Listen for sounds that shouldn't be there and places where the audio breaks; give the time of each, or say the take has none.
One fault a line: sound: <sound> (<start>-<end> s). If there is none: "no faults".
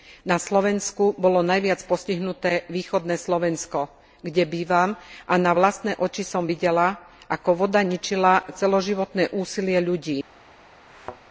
sound: thud (10.9-11.2 s)